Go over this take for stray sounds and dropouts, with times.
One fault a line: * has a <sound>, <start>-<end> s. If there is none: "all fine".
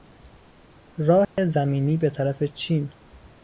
* has a dropout, 1.2-1.4 s